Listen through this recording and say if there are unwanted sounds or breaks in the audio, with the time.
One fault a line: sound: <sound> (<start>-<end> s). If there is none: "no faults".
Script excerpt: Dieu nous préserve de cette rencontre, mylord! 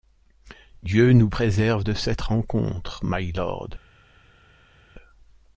no faults